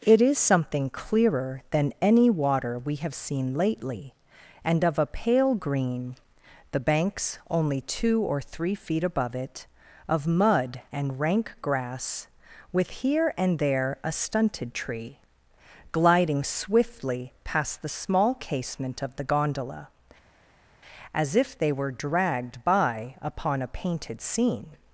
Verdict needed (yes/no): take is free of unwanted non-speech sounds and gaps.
yes